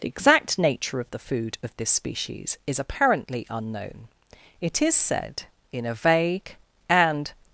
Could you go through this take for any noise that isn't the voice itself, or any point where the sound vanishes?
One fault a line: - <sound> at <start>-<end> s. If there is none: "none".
none